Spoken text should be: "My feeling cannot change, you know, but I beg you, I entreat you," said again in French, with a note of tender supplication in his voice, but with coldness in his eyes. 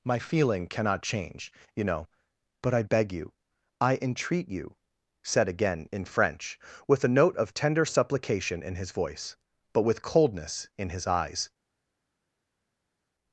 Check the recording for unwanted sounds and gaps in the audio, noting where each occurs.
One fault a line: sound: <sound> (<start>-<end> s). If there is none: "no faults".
no faults